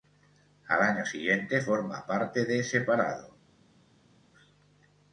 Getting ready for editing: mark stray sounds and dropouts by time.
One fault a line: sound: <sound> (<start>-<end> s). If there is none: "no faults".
no faults